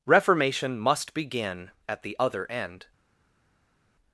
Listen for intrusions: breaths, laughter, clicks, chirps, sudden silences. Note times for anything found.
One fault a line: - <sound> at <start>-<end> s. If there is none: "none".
none